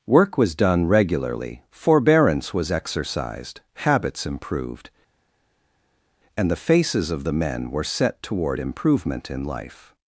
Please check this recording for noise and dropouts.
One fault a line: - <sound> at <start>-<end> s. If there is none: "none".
none